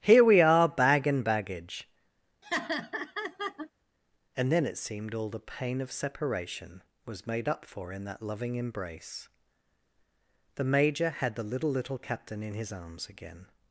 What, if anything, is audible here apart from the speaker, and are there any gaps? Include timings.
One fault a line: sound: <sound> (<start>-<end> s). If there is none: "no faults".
sound: laugh (2.4-3.7 s)